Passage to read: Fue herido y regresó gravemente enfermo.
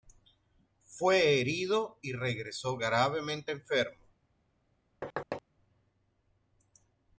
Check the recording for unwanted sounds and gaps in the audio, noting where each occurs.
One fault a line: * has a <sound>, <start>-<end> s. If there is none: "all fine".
* has a thud, 5.0-5.4 s